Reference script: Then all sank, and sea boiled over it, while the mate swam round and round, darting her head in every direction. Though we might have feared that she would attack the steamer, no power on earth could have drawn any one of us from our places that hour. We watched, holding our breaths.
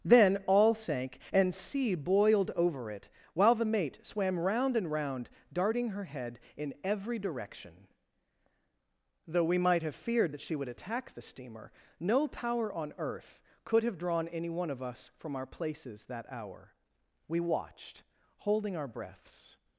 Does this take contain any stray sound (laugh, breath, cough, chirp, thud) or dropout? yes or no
no